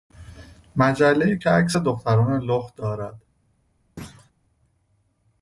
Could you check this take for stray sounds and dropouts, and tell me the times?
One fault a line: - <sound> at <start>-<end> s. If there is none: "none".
- thud at 4.0-4.3 s